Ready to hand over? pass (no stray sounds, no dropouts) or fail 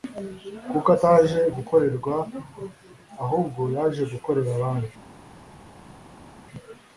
pass